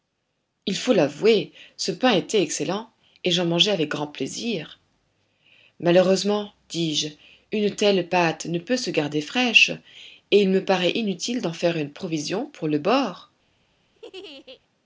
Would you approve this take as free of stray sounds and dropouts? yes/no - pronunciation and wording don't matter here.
no